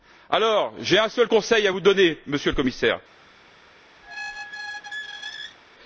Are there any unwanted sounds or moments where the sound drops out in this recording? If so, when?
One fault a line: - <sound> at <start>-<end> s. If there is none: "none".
- squeak at 4.0-5.6 s